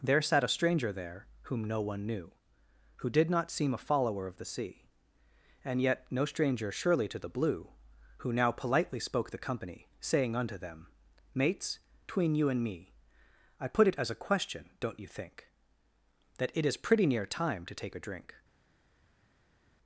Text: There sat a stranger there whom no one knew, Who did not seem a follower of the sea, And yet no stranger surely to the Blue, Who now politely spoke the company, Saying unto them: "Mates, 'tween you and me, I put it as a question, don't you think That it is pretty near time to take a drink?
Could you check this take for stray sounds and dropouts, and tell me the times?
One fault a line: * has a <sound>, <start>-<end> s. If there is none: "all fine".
all fine